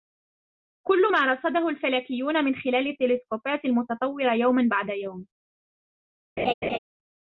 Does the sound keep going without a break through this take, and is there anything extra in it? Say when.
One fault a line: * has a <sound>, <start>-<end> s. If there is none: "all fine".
* has a laugh, 6.4-6.8 s